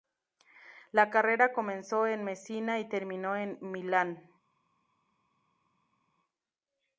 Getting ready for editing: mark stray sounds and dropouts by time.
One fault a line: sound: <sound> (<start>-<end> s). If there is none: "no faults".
no faults